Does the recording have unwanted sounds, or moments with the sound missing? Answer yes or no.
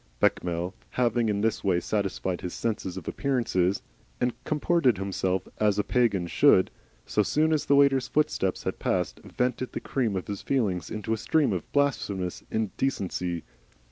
no